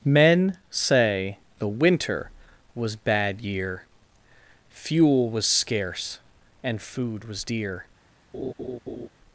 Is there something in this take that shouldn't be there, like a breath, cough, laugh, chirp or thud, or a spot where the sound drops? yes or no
yes